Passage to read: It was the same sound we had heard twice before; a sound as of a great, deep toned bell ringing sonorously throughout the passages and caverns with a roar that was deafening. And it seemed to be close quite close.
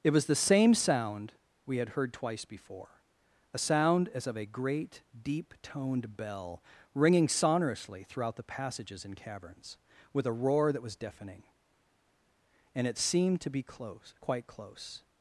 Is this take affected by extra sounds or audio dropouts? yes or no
no